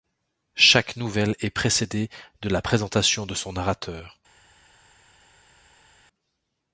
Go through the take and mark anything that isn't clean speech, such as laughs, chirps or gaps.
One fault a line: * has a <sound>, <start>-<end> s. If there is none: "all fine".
all fine